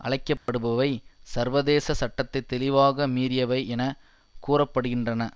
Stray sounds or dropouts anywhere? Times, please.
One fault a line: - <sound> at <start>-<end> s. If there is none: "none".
- dropout at 0.4-0.5 s